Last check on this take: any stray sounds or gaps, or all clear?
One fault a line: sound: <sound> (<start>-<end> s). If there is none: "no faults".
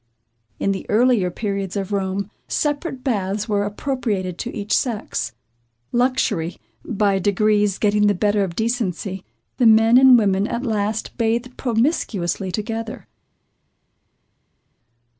no faults